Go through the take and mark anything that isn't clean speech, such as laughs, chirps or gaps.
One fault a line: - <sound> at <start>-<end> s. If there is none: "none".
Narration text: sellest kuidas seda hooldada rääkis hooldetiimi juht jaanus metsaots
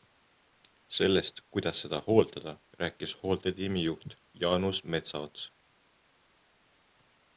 none